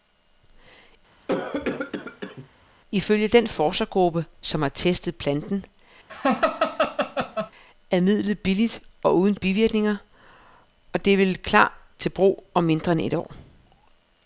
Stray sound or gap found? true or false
true